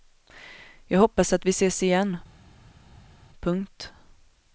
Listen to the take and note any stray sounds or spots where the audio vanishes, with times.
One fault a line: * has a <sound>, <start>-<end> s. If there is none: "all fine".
all fine